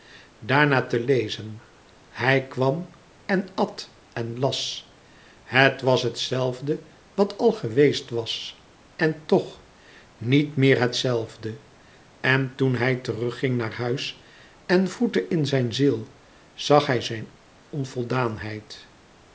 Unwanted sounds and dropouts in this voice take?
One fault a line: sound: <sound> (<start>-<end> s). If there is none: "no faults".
no faults